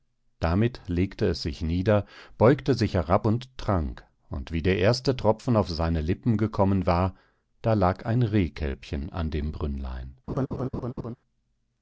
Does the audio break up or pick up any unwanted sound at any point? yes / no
yes